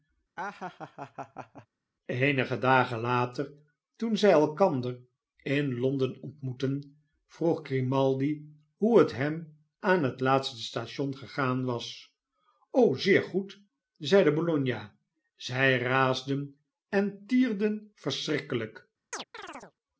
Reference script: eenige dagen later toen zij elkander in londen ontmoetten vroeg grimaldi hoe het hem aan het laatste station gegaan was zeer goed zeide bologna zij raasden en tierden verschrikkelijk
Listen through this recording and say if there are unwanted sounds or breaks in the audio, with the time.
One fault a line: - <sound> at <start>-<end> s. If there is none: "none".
- laugh at 0.4-1.7 s
- chirp at 19.1-19.7 s